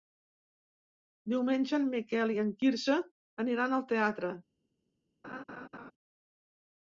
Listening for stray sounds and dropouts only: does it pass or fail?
fail